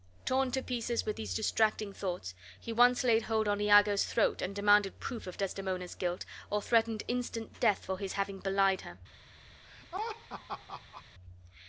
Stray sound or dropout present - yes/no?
yes